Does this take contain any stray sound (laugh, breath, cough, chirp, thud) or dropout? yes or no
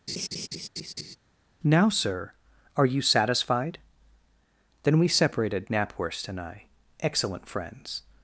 yes